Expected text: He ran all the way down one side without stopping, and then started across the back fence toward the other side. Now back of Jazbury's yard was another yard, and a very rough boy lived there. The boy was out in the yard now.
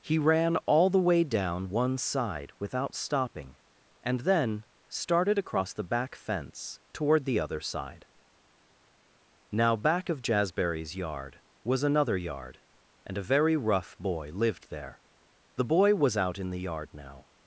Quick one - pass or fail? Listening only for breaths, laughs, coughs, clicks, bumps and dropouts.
pass